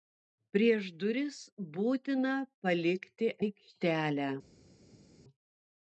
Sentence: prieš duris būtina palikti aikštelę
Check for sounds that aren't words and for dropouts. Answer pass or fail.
pass